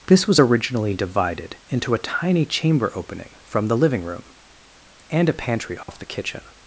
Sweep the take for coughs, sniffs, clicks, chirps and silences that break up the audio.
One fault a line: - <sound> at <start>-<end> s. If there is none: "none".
- dropout at 5.8-5.9 s